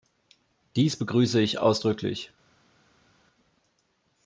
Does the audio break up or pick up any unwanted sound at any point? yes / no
no